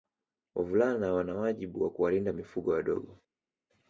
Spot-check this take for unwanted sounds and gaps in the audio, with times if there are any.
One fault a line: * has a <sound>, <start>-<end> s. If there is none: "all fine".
all fine